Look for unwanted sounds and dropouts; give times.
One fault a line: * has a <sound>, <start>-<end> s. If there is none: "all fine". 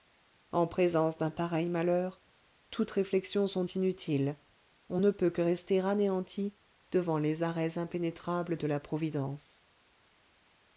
all fine